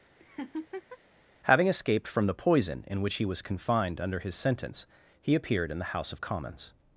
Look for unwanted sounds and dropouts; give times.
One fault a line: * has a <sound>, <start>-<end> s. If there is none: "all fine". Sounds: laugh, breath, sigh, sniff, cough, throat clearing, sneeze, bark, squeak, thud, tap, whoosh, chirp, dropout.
* has a laugh, 0.2-1.0 s